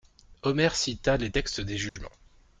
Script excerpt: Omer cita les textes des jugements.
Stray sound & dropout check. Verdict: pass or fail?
fail